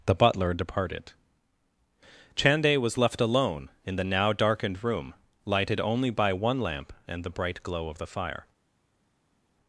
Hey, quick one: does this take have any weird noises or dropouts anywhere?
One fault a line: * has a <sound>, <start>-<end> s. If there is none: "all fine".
all fine